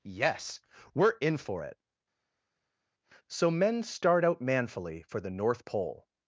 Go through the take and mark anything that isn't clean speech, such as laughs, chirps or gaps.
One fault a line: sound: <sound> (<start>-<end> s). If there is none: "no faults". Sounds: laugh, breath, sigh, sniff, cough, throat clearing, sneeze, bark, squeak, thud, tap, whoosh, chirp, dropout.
no faults